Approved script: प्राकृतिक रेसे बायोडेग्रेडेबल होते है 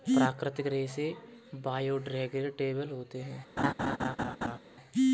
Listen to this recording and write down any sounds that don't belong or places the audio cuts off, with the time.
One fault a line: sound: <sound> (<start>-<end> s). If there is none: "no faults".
sound: laugh (3.6-4.6 s)